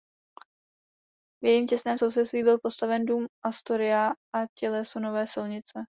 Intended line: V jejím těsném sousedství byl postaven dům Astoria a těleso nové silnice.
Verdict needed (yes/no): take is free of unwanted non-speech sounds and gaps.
yes